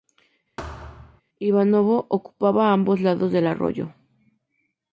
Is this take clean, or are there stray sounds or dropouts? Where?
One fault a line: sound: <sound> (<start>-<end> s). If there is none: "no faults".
sound: thud (0.6-1.2 s)